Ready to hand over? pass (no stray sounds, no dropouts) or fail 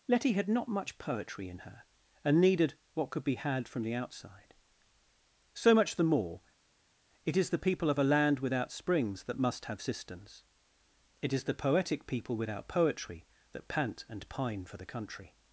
pass